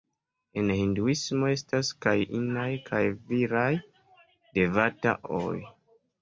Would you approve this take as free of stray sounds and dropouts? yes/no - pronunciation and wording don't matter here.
yes